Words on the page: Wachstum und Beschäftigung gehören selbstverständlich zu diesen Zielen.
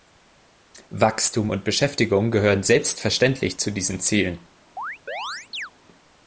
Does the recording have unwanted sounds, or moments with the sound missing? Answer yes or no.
yes